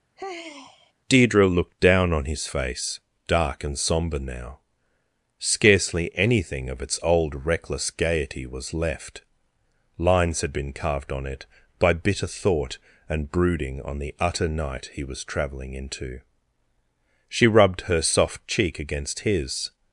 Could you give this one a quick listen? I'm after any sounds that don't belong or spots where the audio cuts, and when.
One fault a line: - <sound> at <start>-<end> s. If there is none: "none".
- sigh at 0.2-0.9 s